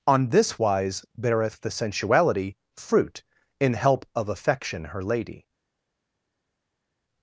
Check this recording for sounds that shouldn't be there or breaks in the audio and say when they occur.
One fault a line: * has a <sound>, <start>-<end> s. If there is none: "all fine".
all fine